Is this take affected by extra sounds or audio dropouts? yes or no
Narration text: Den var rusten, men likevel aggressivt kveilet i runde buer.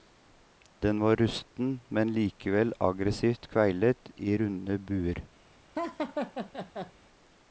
yes